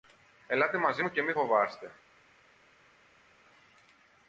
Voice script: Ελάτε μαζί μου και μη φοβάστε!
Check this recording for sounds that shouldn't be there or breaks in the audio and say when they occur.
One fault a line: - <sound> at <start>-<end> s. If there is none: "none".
none